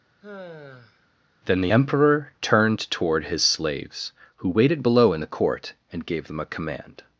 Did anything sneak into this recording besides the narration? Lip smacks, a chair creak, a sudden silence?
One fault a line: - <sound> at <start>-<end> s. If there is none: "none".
- sigh at 0.2-1.1 s